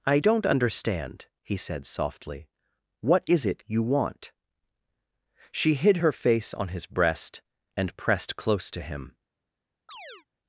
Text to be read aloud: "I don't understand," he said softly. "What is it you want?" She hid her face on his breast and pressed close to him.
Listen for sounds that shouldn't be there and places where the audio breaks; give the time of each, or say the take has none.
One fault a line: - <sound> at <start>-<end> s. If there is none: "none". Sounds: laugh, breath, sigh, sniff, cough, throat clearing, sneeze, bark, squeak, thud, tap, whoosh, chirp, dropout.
- chirp at 9.9-10.3 s